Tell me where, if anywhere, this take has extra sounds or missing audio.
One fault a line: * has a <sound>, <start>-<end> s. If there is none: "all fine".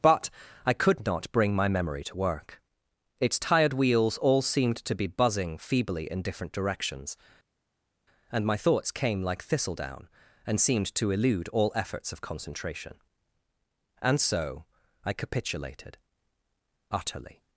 all fine